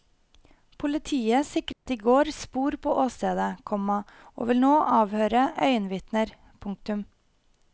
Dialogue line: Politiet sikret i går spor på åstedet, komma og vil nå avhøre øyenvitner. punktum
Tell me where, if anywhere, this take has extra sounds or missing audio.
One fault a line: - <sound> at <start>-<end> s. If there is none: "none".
- dropout at 1.7-1.9 s